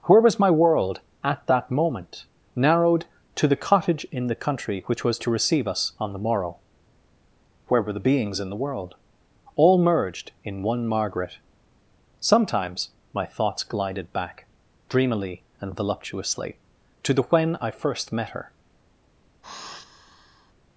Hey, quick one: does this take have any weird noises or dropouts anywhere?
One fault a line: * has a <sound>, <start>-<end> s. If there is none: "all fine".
* has a sigh, 19.4-20.5 s